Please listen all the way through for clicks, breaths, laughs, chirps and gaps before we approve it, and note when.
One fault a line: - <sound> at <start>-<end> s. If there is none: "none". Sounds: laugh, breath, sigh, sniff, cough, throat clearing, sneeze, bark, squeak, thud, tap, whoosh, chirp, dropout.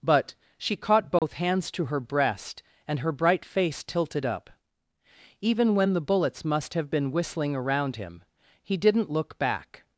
- dropout at 1.2-1.2 s